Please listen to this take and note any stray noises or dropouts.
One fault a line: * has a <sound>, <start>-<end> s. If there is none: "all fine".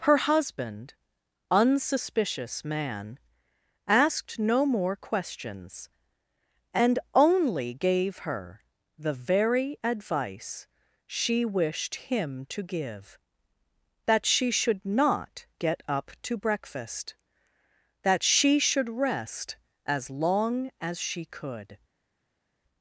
all fine